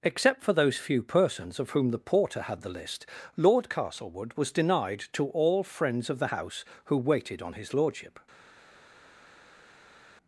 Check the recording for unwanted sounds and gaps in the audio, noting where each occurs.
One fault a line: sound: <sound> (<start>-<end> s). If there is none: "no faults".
no faults